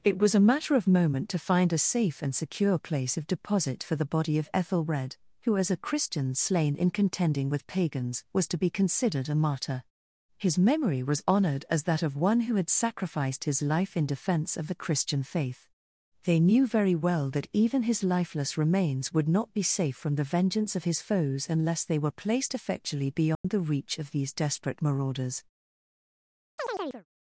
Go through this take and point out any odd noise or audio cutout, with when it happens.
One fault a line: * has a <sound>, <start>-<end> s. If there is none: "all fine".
* has a dropout, 23.3-23.4 s
* has a chirp, 26.6-27.1 s